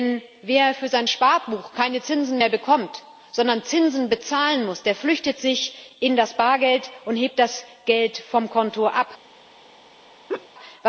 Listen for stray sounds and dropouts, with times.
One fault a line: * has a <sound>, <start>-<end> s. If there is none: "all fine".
* has a laugh, 10.3-10.5 s